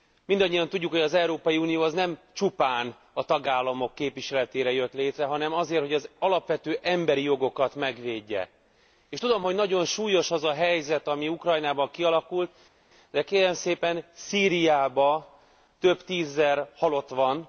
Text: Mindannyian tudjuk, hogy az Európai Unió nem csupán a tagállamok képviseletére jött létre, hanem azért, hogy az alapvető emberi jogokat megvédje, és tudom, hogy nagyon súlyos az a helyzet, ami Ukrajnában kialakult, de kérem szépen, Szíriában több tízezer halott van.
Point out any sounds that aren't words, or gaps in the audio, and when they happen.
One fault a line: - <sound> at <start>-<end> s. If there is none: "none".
none